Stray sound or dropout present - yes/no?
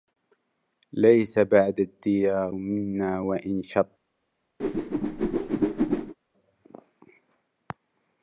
yes